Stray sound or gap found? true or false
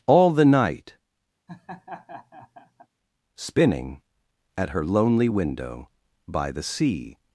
true